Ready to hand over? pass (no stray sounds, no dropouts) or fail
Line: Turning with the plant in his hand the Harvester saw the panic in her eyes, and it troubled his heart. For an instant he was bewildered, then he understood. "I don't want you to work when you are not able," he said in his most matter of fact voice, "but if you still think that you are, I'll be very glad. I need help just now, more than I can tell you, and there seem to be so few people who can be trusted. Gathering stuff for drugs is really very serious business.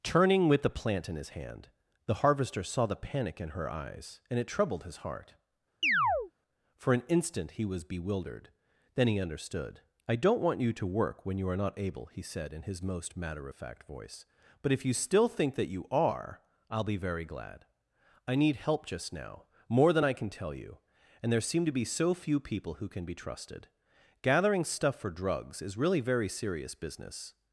fail